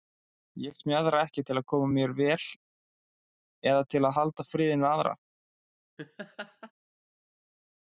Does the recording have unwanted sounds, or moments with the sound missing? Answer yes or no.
yes